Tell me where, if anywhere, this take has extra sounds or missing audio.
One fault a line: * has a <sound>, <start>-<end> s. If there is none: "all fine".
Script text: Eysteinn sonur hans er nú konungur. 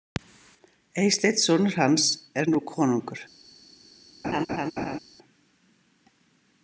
* has a laugh, 4.2-5.0 s